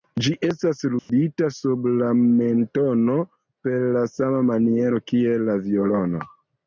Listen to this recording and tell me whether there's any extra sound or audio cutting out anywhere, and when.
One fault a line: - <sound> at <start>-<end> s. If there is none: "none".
- dropout at 1.0-1.1 s